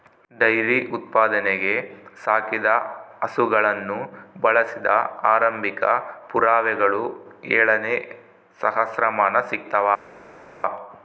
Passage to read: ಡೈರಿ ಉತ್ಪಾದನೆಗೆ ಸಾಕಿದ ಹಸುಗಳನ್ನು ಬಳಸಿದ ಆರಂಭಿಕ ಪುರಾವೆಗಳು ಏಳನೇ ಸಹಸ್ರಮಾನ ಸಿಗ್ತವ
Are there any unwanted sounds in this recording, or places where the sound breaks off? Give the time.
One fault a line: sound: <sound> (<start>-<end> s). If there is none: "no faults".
no faults